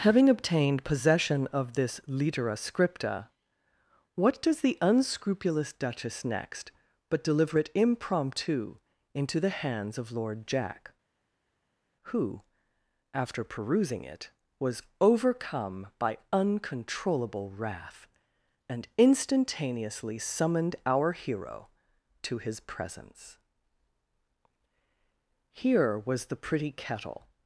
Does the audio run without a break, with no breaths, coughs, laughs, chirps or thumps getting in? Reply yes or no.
yes